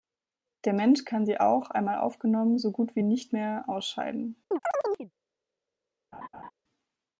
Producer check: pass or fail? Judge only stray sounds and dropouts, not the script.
fail